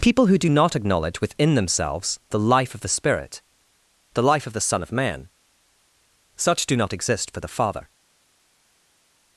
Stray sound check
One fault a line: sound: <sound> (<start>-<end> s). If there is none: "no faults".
no faults